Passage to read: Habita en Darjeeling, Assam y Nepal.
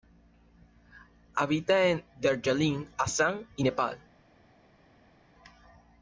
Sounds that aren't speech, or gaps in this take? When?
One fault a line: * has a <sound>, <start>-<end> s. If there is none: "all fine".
all fine